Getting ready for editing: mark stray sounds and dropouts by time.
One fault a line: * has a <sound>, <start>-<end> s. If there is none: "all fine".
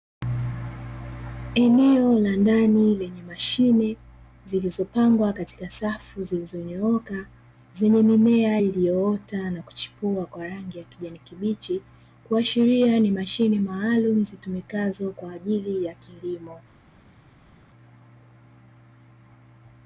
all fine